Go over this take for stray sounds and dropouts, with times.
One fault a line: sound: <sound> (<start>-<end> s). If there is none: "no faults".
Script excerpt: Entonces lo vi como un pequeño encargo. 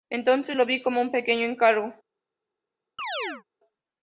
sound: chirp (3.0-3.4 s)